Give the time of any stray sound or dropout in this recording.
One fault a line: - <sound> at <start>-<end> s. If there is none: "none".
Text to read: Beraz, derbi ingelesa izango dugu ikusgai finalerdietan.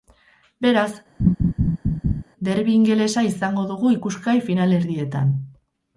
- laugh at 1.2-2.2 s